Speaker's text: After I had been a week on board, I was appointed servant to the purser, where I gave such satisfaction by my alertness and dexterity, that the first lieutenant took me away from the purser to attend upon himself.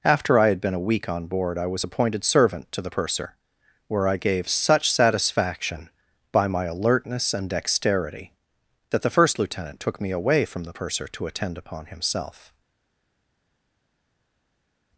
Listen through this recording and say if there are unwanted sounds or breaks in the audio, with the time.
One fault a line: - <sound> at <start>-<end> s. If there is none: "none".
none